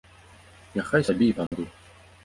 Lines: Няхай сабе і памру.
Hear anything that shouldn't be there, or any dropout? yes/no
yes